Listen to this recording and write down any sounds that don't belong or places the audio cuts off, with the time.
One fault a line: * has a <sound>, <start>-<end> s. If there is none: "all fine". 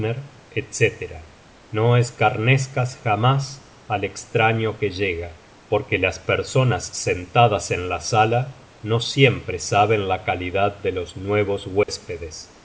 * has a dropout, 11.8-11.9 s